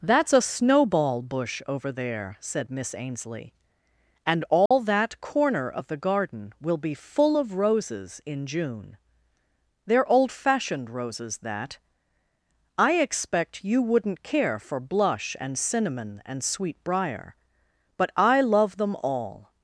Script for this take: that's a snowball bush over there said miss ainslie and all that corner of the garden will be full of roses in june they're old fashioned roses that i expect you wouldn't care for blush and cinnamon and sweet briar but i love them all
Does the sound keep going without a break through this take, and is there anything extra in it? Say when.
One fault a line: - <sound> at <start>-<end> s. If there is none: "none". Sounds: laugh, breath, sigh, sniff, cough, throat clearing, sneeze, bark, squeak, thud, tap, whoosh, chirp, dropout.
- dropout at 4.7-4.7 s